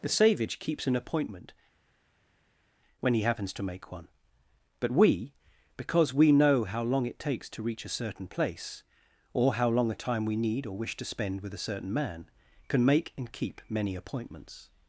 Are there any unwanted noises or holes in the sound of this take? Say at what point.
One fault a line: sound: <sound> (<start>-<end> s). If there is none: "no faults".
no faults